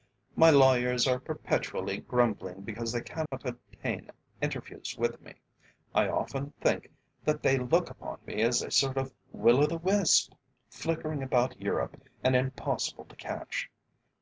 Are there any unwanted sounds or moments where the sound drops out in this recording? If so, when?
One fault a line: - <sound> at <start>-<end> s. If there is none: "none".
- dropout at 3.3-3.3 s